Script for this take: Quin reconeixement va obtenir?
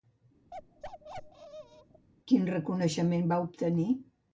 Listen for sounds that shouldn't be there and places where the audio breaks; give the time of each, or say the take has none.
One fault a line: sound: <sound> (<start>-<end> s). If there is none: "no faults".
sound: bark (0.5-2.1 s)